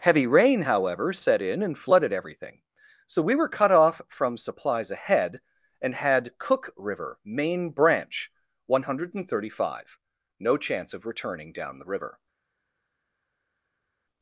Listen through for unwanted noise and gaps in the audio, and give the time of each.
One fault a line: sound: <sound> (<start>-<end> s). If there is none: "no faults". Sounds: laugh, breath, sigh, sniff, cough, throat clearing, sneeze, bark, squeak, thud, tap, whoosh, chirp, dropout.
no faults